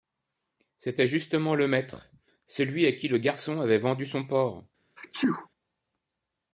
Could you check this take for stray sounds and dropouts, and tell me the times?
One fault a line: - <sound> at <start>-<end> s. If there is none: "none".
- sneeze at 5.0-5.5 s